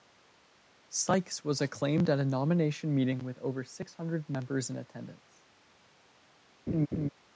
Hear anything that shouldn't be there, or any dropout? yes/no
yes